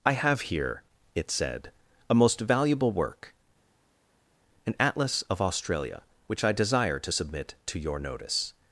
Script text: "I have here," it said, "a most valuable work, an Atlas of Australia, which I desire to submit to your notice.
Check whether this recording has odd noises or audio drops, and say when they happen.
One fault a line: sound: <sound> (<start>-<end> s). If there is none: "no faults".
no faults